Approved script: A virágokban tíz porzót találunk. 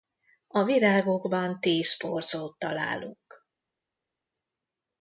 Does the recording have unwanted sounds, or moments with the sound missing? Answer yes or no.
no